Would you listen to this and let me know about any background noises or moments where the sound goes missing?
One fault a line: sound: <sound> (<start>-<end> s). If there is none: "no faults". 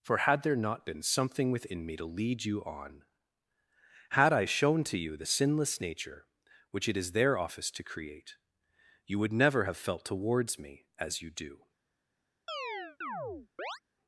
sound: chirp (12.5-13.8 s)